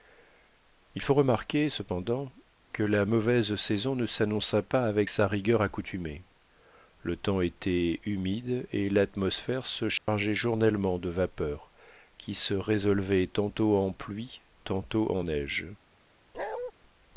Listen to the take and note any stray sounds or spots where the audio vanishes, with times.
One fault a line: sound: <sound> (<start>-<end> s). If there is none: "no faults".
sound: dropout (10.0-10.1 s)
sound: bark (16.3-16.7 s)